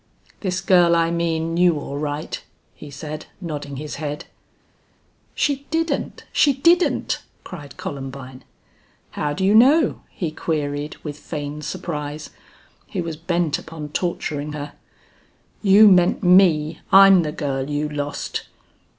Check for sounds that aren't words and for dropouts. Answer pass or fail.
pass